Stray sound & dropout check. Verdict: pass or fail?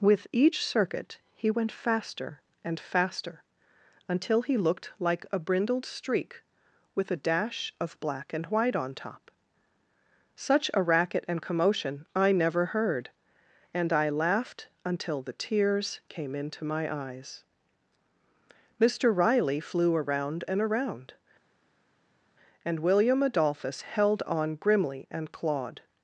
pass